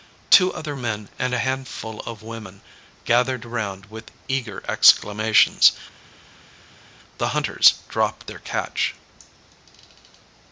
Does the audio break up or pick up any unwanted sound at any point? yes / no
no